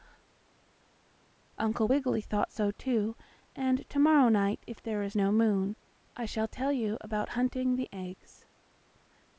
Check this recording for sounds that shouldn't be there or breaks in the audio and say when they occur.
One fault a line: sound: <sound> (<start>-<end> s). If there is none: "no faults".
no faults